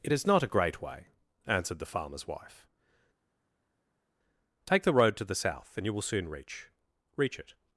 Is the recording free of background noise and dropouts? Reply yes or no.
yes